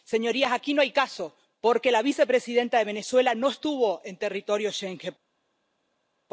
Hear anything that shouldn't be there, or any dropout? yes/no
no